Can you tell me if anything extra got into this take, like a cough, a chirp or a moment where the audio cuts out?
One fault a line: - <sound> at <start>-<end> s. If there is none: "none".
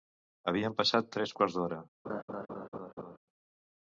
- laugh at 2.0-3.2 s